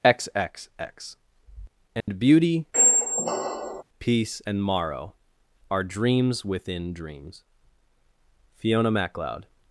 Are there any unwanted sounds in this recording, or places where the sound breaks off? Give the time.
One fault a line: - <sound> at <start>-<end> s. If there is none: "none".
- dropout at 2.0-2.1 s
- squeak at 2.7-3.8 s